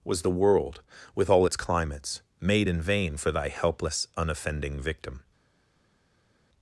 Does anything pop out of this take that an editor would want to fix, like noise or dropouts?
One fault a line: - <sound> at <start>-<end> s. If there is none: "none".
none